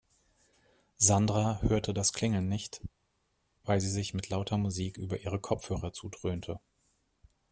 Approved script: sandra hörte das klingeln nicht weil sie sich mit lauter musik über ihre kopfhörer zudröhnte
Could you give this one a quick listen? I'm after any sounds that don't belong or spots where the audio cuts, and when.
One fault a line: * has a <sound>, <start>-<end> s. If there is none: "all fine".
all fine